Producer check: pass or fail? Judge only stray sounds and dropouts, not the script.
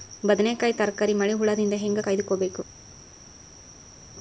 pass